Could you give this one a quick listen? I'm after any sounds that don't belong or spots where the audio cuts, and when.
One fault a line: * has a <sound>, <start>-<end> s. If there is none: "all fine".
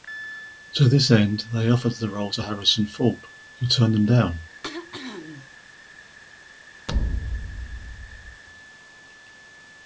* has a throat clearing, 4.6-5.5 s
* has a thud, 6.9-8.4 s